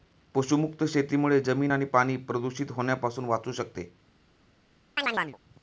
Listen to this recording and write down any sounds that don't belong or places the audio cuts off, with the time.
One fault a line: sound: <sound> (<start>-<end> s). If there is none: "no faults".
sound: chirp (5.0-5.4 s)